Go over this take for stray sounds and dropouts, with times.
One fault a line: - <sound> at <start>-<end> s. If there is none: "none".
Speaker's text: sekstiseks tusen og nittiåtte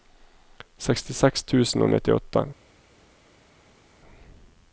none